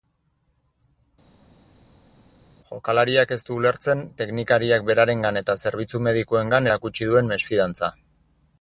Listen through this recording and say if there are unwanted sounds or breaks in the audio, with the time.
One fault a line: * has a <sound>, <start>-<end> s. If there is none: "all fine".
all fine